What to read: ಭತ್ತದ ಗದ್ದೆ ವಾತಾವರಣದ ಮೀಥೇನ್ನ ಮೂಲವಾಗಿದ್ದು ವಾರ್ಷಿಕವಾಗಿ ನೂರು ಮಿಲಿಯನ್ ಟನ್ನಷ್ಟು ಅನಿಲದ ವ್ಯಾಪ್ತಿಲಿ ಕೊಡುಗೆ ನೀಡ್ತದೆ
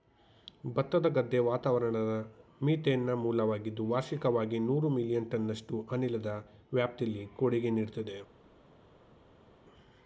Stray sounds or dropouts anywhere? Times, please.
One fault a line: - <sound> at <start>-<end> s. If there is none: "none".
none